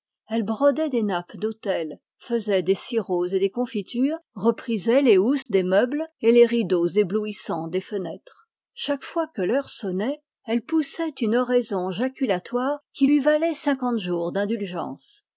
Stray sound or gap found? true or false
true